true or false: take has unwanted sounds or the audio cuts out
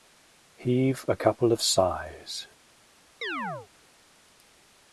true